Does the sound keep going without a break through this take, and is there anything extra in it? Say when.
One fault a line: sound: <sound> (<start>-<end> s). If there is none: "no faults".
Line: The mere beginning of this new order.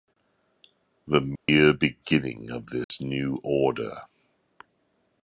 sound: dropout (1.4-1.5 s)
sound: dropout (2.8-2.9 s)